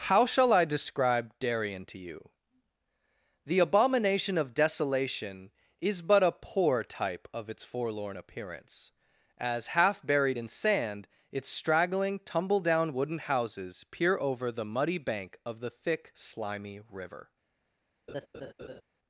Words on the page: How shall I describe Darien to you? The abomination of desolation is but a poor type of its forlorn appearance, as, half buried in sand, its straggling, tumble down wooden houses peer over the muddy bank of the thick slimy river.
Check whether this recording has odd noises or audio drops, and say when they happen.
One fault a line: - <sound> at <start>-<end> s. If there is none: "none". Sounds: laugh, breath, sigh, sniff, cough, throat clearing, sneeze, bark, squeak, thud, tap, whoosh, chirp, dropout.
- laugh at 18.1-18.8 s